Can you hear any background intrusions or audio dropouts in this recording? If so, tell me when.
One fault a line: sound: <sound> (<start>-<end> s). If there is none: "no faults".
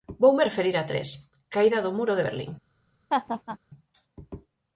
sound: laugh (3.1-3.6 s)